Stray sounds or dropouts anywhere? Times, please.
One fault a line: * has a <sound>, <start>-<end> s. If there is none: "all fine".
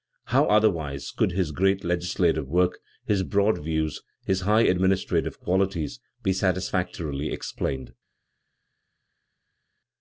all fine